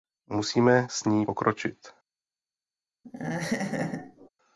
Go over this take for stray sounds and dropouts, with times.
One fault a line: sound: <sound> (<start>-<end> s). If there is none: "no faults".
sound: laugh (3.0-4.3 s)